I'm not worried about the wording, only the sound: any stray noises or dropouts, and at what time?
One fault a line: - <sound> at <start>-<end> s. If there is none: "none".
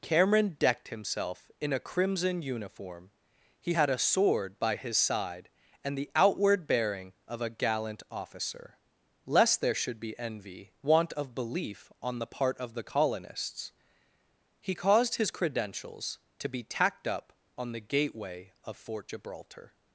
none